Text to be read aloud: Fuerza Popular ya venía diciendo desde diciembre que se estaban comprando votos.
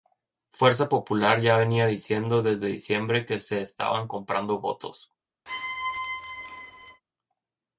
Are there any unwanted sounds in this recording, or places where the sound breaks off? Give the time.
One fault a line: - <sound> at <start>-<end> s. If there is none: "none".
- squeak at 5.5-7.0 s